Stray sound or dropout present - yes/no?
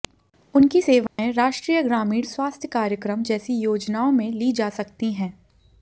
yes